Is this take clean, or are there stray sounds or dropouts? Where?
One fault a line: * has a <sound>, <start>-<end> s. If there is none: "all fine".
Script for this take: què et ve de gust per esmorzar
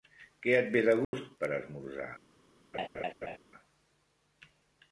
* has a dropout, 1.0-1.1 s
* has a laugh, 2.7-3.4 s